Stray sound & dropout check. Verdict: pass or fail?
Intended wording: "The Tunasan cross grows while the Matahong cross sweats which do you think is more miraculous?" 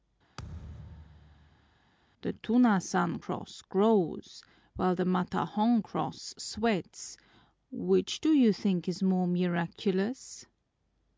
fail